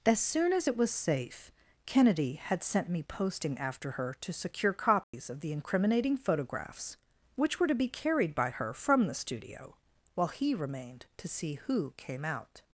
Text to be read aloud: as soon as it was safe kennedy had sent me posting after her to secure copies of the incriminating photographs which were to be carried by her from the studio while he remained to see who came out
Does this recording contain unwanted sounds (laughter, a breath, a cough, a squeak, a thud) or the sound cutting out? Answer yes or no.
yes